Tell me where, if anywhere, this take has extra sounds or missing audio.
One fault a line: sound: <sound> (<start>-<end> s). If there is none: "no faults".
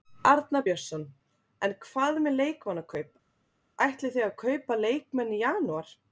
no faults